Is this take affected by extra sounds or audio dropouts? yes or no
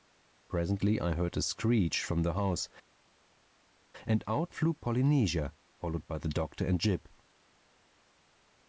no